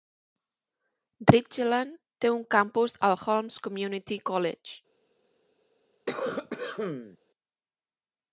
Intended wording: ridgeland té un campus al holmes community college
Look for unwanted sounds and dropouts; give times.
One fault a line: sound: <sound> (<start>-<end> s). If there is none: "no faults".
sound: cough (6.1-7.2 s)